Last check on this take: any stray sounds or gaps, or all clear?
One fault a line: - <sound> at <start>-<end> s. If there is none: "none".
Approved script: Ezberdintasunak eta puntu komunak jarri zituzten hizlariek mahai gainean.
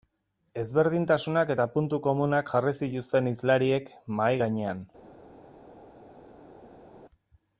none